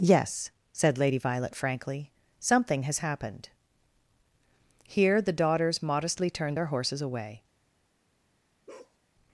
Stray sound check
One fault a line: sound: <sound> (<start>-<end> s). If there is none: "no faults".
sound: bark (8.7-9.0 s)